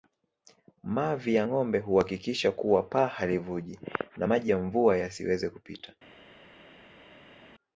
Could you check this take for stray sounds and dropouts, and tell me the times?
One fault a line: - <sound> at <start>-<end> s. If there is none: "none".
none